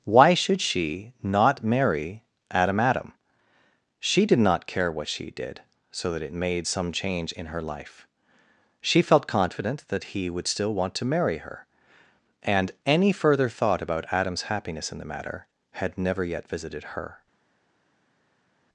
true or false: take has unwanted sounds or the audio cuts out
false